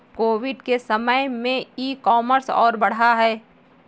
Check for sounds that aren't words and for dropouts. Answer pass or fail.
pass